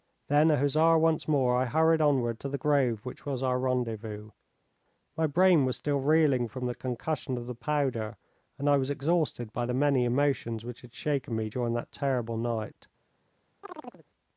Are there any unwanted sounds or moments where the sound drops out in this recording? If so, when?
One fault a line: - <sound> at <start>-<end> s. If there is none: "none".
- chirp at 13.6-14.1 s